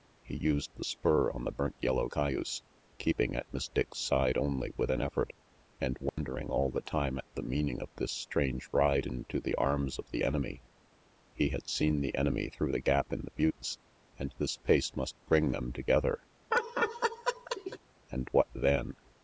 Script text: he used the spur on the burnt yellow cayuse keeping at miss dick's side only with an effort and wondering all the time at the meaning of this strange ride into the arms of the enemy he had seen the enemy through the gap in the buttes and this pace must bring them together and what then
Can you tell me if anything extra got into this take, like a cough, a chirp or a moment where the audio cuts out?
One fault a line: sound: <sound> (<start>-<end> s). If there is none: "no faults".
sound: dropout (6.1-6.2 s)
sound: laugh (16.5-17.8 s)